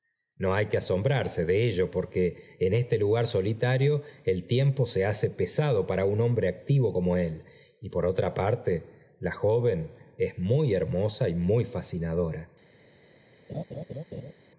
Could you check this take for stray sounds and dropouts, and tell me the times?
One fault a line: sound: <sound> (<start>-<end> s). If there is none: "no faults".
sound: laugh (13.5-14.3 s)